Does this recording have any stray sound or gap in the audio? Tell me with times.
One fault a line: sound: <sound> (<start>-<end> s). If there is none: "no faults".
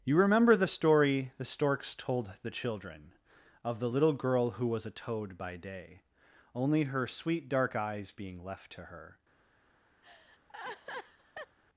sound: laugh (10.0-11.6 s)